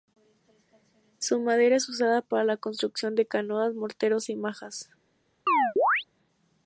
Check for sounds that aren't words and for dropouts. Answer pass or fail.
fail